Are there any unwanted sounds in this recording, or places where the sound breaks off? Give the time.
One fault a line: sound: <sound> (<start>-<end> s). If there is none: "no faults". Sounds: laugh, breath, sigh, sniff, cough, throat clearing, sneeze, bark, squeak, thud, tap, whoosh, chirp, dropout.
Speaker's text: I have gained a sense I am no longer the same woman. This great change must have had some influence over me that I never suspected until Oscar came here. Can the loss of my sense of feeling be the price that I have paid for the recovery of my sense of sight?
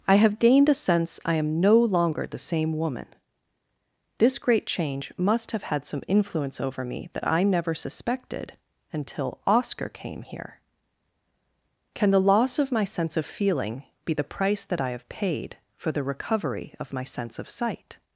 no faults